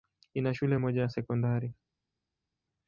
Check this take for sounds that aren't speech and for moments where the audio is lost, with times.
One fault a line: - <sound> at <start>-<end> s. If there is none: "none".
none